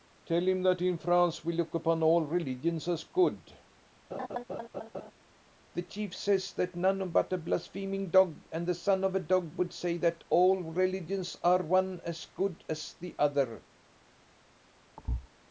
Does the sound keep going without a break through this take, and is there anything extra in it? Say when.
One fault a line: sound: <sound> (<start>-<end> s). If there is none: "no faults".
sound: laugh (4.1-5.1 s)
sound: thud (15.0-15.3 s)